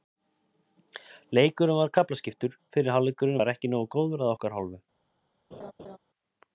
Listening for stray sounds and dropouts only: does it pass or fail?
fail